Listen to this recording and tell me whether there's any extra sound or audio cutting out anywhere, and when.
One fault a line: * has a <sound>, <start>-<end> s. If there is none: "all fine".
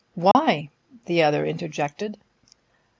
* has a dropout, 0.3-0.3 s